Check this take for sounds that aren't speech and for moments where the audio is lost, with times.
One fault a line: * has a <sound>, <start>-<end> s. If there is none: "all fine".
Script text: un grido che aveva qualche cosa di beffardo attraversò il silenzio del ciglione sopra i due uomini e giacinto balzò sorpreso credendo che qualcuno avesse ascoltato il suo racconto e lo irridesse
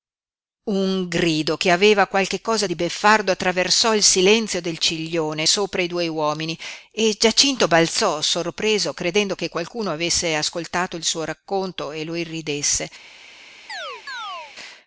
* has a chirp, 13.7-14.5 s